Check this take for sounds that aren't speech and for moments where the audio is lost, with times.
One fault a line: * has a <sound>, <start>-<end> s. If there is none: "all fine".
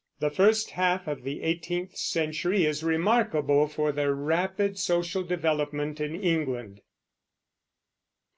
all fine